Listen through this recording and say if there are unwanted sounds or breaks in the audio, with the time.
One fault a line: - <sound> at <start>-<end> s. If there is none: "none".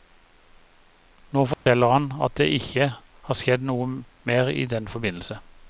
- dropout at 1.5-1.7 s